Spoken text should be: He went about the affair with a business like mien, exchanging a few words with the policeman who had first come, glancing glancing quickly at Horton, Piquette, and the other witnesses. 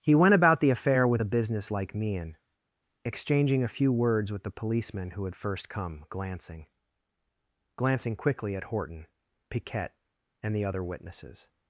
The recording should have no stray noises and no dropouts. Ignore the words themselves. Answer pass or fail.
pass